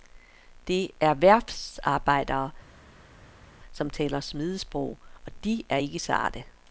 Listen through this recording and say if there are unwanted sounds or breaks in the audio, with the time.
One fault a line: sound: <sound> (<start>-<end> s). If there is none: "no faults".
no faults